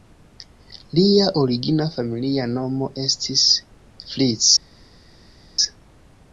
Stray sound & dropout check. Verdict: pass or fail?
pass